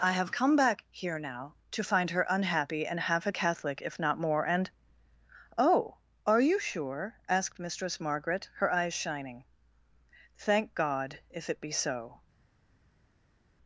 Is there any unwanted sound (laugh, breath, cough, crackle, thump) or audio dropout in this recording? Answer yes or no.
no